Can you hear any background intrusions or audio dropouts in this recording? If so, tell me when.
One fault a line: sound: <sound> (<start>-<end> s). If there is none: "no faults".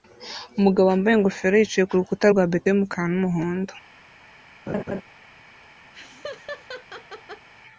sound: laugh (4.7-5.0 s)
sound: laugh (5.9-7.5 s)